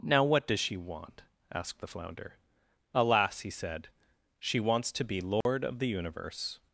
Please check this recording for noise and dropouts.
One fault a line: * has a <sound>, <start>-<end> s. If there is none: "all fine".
* has a dropout, 5.4-5.5 s